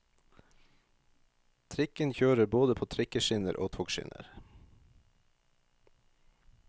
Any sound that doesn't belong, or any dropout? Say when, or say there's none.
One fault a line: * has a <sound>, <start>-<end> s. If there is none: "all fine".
all fine